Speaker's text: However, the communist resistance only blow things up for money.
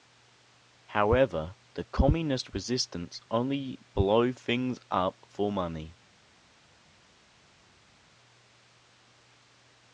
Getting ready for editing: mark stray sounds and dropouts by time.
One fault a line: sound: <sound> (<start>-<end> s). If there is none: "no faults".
no faults